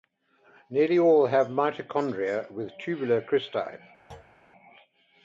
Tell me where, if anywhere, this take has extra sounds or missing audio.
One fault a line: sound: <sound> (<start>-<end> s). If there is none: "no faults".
sound: thud (4.1-4.4 s)